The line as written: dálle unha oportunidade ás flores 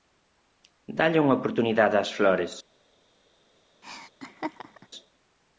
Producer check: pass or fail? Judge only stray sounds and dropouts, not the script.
fail